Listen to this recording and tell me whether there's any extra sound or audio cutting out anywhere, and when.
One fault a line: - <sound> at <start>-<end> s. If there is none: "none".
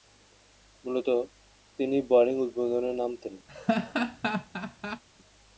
- laugh at 3.5-5.0 s